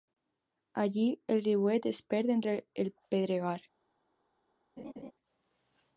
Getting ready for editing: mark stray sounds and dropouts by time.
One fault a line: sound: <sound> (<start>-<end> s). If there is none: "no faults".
sound: laugh (4.8-5.1 s)